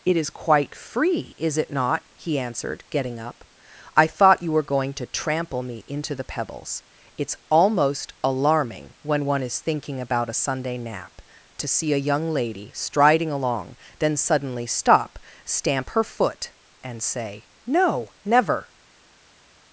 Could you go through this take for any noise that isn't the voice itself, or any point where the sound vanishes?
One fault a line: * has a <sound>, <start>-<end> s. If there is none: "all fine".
all fine